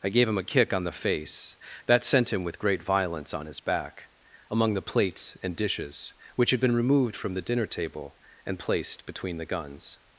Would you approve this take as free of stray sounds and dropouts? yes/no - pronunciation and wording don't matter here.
yes